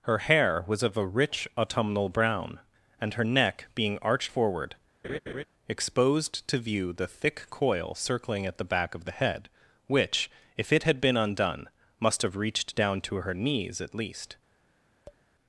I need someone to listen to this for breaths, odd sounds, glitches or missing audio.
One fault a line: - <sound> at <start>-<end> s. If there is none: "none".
- laugh at 5.0-5.4 s
- tap at 15.1-15.2 s